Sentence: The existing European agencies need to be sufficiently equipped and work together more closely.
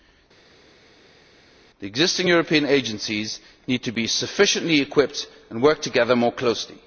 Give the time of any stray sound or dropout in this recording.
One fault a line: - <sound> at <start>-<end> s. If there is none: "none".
none